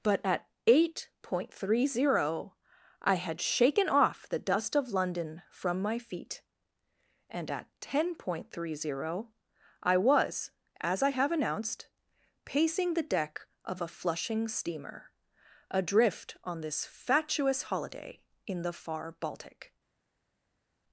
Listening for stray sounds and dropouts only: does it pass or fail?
pass